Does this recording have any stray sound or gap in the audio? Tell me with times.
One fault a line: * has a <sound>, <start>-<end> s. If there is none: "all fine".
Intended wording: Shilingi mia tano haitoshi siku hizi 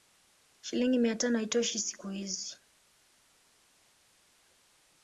all fine